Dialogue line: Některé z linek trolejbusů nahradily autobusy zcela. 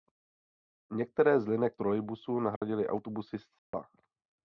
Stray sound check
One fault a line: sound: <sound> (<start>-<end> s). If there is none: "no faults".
sound: dropout (2.6-2.6 s)
sound: dropout (3.6-3.7 s)